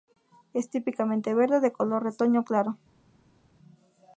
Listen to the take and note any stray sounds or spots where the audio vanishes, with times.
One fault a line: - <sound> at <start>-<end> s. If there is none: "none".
none